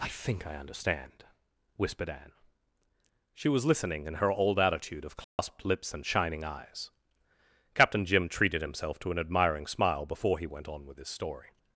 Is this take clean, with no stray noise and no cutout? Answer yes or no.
no